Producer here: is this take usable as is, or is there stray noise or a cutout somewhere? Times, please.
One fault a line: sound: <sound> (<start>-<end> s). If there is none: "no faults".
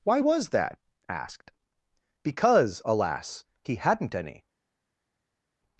no faults